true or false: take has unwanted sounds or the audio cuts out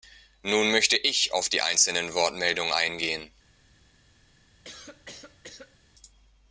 true